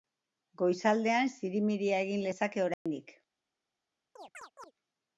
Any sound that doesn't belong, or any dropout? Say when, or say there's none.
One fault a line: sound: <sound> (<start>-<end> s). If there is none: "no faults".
sound: dropout (2.7-2.9 s)
sound: chirp (4.2-4.7 s)